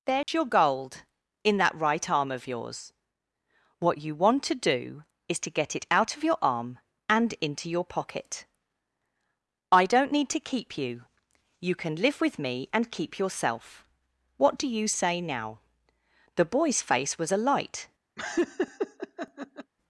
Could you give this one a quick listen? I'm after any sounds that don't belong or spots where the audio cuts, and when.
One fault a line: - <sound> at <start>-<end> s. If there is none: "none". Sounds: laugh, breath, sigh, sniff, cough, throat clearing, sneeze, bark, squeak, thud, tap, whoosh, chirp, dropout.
- dropout at 0.2-0.3 s
- laugh at 18.2-19.7 s